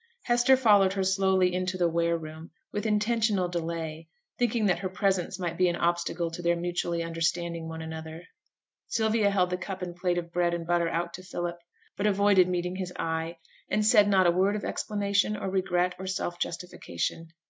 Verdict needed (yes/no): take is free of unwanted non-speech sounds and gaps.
yes